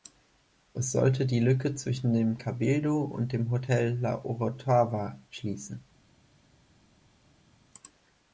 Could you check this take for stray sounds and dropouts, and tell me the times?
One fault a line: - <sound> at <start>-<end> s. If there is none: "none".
none